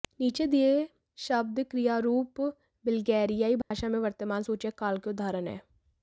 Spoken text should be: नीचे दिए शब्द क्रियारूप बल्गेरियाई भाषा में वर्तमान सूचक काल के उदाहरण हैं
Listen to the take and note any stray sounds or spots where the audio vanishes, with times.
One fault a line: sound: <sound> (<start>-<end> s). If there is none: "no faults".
sound: dropout (3.6-3.7 s)